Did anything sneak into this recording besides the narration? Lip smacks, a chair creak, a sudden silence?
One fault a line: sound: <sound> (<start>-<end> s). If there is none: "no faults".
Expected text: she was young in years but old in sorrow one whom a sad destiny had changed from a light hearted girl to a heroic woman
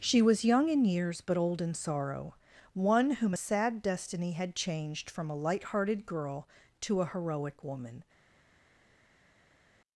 no faults